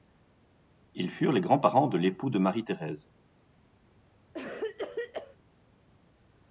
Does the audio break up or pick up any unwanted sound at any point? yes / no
yes